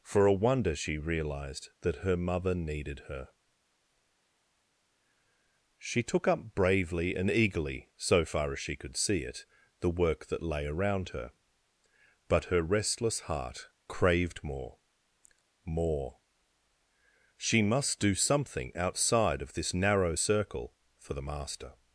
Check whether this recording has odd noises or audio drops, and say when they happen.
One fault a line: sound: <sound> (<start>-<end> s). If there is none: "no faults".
no faults